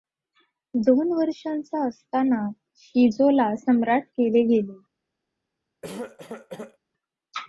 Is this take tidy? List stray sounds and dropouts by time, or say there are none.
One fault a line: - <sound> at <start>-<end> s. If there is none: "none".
- cough at 5.8-6.8 s